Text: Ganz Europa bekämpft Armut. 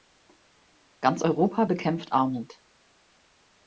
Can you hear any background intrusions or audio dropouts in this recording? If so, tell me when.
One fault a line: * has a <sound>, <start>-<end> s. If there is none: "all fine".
all fine